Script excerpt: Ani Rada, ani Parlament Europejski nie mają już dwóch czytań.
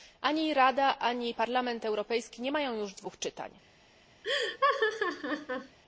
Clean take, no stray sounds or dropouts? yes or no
no